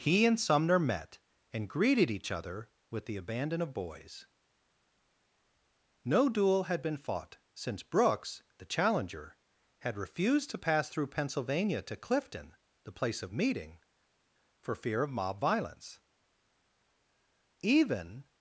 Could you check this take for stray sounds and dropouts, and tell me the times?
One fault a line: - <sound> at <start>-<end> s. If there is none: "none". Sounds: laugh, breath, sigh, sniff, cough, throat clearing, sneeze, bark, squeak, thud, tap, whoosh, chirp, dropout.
none